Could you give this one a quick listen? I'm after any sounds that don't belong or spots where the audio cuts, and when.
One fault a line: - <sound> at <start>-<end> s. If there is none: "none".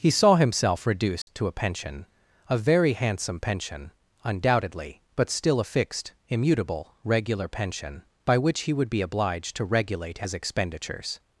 - dropout at 1.2-1.3 s